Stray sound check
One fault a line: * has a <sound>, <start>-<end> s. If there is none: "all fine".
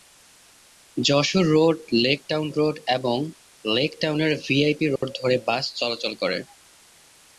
* has a dropout, 5.0-5.0 s